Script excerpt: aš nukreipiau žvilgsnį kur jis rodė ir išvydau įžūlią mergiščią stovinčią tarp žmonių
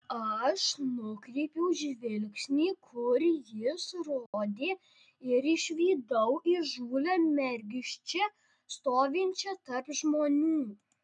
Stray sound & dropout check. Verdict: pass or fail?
fail